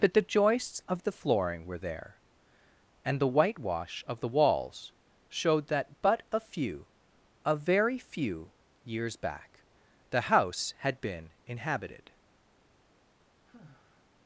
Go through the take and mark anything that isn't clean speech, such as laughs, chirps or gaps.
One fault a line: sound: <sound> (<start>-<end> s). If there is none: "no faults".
sound: sigh (13.5-14.1 s)